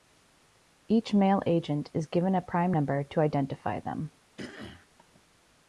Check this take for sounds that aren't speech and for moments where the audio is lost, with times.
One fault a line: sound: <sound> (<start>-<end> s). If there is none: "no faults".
sound: throat clearing (4.4-4.9 s)